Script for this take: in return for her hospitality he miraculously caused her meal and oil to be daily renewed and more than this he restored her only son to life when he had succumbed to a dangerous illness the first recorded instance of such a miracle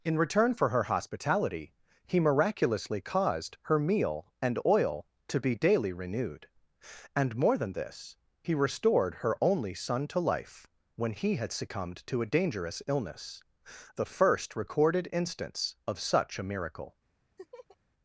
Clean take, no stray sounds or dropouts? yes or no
no